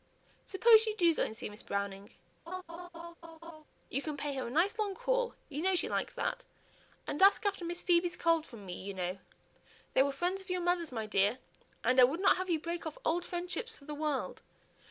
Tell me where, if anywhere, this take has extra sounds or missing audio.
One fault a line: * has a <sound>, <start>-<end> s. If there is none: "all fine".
* has a laugh, 2.5-3.6 s